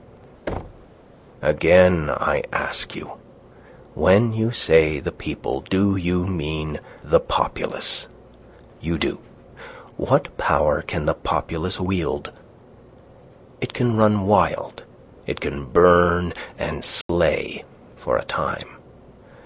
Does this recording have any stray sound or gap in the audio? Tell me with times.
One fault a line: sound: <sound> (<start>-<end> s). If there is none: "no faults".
sound: thud (0.5-0.9 s)
sound: dropout (17.0-17.1 s)